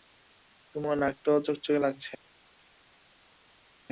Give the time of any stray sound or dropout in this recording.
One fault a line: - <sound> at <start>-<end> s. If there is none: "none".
none